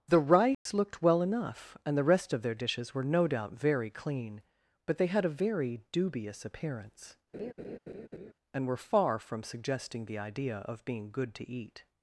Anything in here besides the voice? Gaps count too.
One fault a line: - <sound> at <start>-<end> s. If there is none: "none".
- dropout at 0.5-0.7 s
- laugh at 7.3-8.3 s